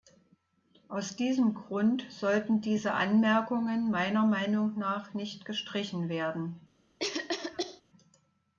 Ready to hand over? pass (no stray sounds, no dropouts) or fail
fail